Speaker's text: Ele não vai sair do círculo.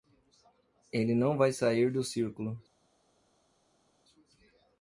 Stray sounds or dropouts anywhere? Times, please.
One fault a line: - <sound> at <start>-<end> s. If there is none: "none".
none